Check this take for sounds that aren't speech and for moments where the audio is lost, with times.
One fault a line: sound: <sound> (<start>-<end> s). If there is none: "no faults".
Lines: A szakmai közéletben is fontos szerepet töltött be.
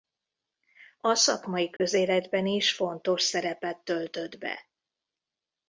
sound: dropout (1.8-1.8 s)